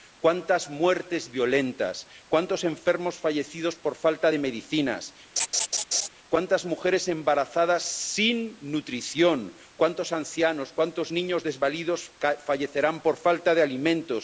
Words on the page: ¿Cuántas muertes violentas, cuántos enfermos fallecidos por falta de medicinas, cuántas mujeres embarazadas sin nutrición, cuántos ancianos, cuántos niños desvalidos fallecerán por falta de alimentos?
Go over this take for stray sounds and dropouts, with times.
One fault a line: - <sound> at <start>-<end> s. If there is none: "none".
- laugh at 5.4-6.1 s